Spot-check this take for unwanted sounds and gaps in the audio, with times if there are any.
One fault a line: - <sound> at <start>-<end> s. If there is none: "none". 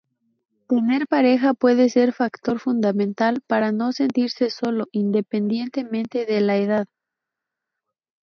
none